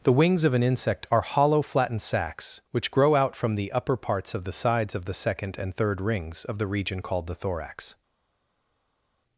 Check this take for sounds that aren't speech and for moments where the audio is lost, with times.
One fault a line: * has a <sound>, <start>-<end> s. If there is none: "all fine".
all fine